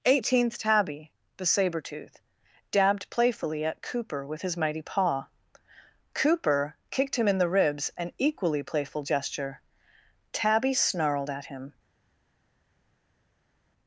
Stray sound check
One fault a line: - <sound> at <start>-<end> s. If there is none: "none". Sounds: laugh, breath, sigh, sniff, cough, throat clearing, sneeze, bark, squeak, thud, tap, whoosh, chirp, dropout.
none